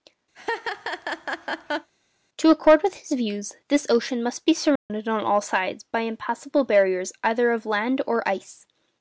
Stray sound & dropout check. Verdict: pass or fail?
fail